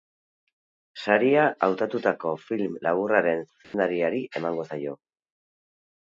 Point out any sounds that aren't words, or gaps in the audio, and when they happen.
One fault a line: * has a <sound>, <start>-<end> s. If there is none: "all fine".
* has a dropout, 3.6-3.7 s